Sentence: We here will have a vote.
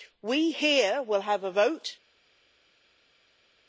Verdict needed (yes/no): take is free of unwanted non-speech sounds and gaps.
yes